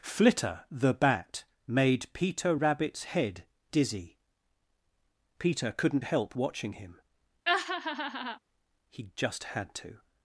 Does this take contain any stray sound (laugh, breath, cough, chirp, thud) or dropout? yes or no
yes